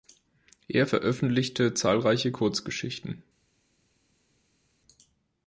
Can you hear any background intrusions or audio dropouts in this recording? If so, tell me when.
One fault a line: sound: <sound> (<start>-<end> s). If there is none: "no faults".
no faults